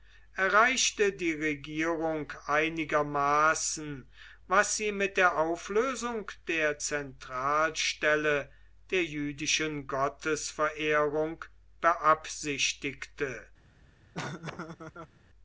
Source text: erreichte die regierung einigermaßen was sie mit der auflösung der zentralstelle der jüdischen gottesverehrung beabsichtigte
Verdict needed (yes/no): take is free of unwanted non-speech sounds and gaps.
no